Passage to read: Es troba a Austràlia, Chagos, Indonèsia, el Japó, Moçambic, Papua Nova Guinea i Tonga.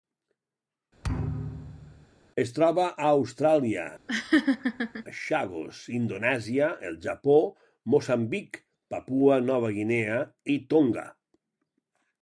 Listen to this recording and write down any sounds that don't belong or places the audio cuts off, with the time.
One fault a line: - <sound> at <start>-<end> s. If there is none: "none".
- thud at 1.0-2.1 s
- laugh at 4.1-5.0 s